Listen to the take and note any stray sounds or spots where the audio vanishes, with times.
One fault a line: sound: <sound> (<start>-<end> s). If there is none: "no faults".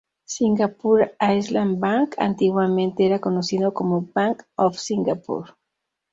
no faults